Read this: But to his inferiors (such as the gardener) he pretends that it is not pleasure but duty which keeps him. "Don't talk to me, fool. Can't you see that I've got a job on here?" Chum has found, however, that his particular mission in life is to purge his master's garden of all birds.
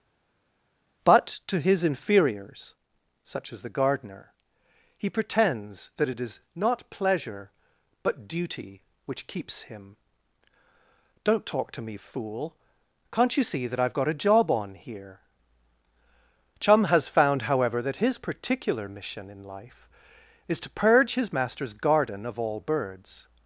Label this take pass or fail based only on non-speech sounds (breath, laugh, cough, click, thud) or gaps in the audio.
pass